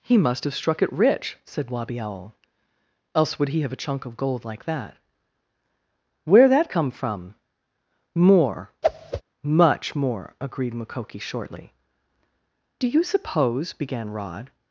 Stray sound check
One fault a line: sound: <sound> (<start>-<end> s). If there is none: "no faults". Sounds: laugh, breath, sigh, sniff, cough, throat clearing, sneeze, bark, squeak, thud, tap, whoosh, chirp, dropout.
sound: whoosh (8.8-9.2 s)